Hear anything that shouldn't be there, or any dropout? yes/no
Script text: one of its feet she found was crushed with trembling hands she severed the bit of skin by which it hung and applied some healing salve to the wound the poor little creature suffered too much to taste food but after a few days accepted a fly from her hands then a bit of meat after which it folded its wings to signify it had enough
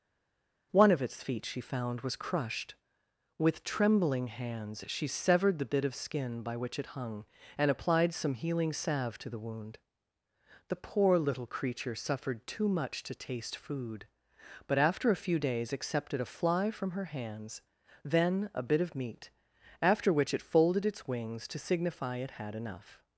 no